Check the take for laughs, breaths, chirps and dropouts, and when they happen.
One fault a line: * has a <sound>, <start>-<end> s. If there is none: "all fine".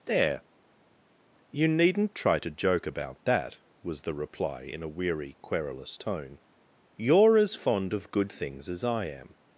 all fine